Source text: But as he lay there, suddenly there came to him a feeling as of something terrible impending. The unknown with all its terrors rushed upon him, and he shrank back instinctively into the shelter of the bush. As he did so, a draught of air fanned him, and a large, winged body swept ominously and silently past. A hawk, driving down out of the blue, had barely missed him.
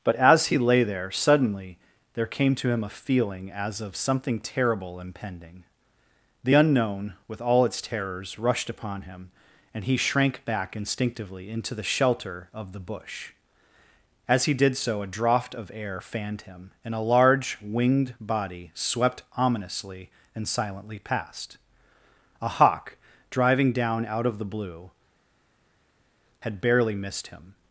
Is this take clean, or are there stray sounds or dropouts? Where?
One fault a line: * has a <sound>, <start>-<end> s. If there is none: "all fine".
all fine